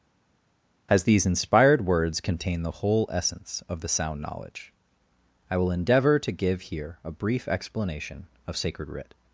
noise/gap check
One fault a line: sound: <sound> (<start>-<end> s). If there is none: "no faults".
no faults